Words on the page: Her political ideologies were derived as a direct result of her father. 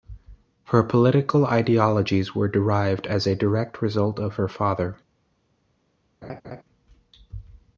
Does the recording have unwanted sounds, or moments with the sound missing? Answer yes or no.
yes